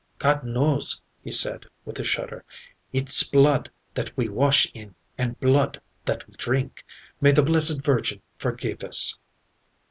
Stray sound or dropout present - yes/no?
no